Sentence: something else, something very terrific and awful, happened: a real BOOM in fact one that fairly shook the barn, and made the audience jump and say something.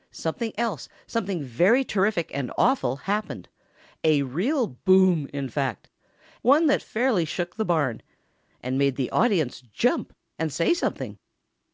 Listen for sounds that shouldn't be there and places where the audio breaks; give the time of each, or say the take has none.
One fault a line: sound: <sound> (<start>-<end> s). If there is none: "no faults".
no faults